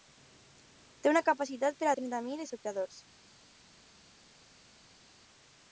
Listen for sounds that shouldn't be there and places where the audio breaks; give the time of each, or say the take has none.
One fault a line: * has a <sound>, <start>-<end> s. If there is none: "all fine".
all fine